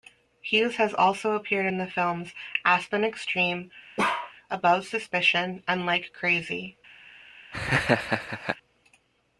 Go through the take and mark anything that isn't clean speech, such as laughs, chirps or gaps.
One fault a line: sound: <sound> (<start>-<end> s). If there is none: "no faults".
sound: bark (4.0-4.3 s)
sound: laugh (7.5-8.6 s)